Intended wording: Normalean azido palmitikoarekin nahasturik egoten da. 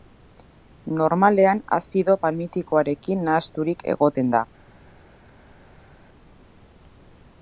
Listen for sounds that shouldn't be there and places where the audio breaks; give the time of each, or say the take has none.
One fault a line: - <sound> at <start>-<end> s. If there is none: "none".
none